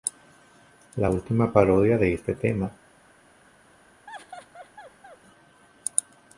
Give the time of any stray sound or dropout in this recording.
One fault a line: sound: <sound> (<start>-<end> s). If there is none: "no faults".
sound: laugh (4.1-5.2 s)